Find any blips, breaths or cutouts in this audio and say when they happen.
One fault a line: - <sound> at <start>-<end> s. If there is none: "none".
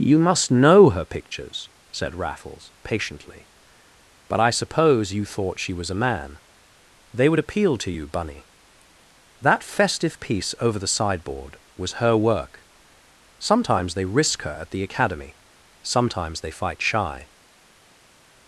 none